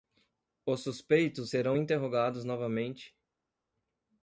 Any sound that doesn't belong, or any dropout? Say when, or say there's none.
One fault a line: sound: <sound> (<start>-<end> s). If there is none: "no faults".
no faults